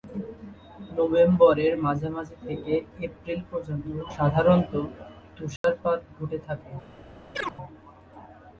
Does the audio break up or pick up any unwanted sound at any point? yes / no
yes